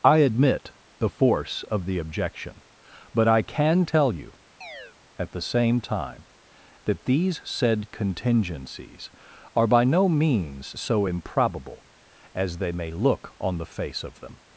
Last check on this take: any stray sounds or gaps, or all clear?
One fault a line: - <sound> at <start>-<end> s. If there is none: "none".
- chirp at 4.6-5.0 s